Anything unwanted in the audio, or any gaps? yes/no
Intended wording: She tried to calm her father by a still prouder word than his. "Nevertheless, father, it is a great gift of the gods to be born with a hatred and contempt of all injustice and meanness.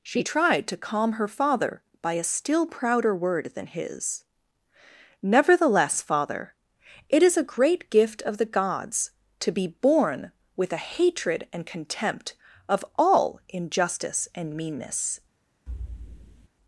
yes